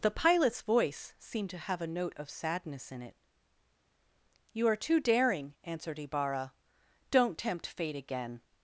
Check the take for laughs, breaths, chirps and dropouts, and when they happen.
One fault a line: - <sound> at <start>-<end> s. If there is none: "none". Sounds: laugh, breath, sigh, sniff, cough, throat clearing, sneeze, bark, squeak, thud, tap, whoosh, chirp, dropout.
none